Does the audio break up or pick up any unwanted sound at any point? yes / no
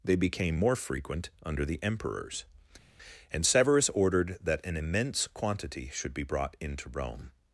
no